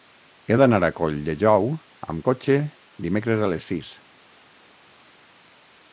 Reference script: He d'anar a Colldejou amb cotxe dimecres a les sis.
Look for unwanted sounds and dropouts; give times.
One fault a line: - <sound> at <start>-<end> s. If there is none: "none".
none